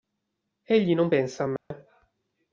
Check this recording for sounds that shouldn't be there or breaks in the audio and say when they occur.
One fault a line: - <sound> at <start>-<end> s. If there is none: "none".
- dropout at 1.6-1.7 s